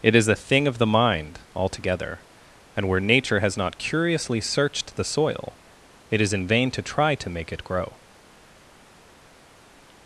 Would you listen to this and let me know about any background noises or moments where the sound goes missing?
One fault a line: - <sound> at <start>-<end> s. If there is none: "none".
none